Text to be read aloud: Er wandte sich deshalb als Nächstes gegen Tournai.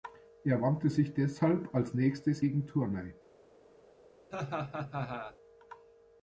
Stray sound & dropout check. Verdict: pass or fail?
fail